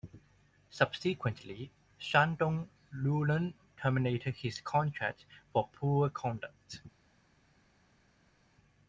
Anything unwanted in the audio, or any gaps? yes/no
no